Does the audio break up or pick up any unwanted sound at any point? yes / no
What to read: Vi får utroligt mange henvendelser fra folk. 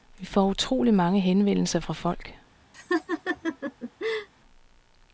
yes